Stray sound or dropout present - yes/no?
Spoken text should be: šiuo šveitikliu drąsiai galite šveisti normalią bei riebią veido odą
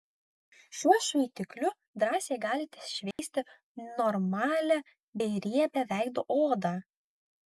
yes